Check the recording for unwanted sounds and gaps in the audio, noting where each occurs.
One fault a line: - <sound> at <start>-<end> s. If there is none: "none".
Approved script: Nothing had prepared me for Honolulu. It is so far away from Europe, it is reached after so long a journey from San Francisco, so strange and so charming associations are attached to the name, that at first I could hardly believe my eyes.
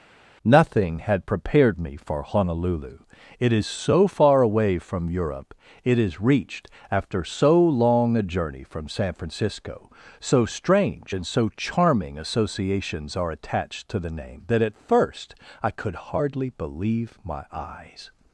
none